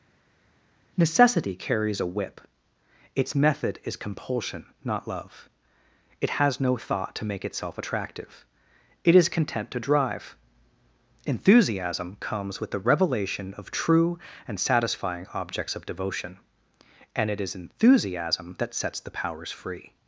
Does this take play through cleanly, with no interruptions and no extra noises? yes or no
yes